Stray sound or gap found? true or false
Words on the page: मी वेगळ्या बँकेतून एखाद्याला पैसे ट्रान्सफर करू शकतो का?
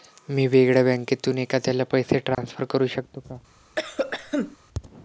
true